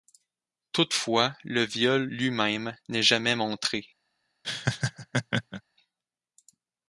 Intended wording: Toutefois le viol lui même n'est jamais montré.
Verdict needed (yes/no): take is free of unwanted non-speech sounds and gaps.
no